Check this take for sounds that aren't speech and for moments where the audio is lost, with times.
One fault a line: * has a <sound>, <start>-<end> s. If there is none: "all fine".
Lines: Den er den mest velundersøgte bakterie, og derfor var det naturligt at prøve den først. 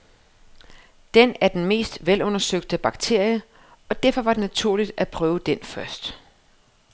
all fine